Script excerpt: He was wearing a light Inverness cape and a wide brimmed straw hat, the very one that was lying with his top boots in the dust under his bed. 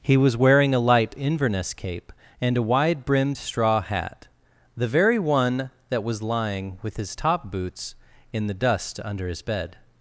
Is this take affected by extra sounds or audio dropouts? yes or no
no